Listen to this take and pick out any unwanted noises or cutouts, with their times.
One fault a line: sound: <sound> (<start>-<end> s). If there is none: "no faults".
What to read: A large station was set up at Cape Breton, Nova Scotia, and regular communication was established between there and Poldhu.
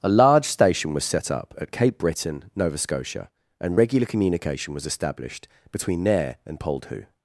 no faults